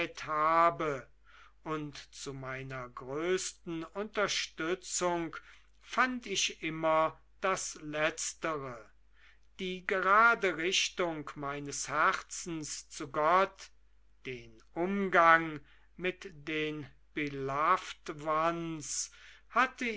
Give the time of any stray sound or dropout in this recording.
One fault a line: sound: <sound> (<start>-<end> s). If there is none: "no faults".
no faults